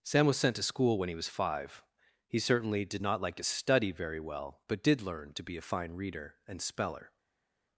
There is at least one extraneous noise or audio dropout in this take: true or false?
false